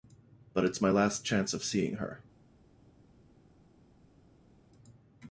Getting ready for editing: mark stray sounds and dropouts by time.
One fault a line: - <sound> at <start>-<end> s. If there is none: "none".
none